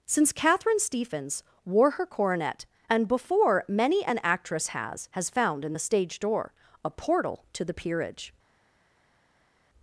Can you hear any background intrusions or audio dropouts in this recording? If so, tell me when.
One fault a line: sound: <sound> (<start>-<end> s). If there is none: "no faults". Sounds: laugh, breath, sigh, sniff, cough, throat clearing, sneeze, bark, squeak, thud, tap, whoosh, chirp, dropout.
no faults